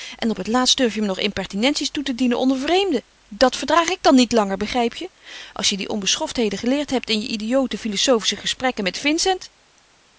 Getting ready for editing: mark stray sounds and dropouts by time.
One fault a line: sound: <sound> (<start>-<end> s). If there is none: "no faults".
no faults